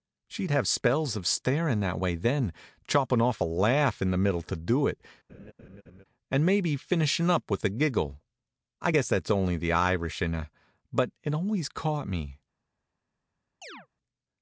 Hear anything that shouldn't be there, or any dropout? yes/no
yes